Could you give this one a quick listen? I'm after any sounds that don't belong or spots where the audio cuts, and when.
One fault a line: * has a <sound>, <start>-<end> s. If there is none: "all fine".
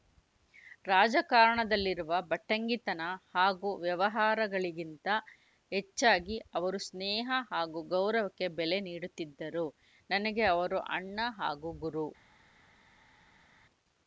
all fine